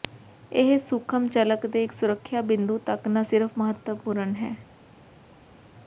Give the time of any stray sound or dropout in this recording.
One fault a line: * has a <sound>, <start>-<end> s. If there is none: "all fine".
all fine